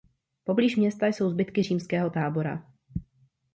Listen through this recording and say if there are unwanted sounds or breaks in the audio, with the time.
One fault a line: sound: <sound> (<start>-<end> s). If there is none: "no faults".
no faults